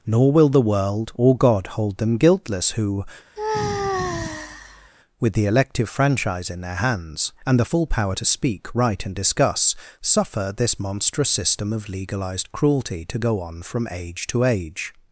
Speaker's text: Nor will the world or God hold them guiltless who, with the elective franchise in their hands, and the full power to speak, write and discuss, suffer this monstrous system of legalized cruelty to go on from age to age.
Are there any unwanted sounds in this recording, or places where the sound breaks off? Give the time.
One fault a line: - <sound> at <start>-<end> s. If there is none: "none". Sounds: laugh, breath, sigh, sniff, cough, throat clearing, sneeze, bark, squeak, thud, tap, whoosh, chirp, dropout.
- sigh at 3.4-4.9 s